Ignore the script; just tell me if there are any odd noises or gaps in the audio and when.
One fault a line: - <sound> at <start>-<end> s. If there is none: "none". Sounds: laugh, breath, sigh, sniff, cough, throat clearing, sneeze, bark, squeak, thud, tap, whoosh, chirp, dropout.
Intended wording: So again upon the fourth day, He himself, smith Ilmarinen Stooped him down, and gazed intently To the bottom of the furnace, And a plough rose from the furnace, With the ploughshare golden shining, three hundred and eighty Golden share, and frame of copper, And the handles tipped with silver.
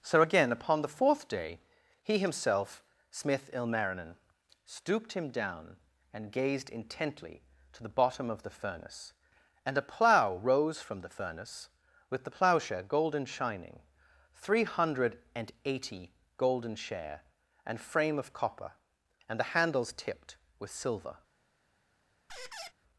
- squeak at 22.3-22.7 s